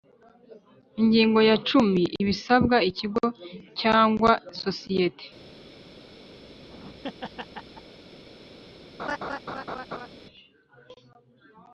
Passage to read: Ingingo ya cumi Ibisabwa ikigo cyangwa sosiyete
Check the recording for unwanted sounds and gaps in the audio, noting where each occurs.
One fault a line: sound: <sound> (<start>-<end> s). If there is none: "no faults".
sound: laugh (6.4-8.0 s)
sound: laugh (9.0-10.1 s)